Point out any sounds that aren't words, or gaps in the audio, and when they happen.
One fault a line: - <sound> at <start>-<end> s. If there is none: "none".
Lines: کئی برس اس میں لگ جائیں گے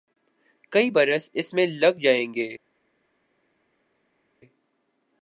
none